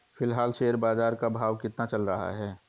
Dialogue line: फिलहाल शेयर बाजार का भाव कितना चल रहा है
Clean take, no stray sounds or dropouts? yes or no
yes